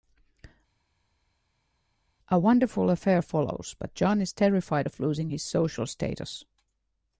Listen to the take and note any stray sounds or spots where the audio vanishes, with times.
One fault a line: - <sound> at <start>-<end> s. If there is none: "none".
none